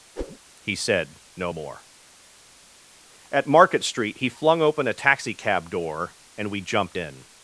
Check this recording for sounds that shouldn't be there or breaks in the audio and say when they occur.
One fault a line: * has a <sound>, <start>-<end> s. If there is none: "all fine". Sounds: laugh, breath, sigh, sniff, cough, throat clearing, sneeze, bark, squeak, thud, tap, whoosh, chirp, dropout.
* has a whoosh, 0.2-0.4 s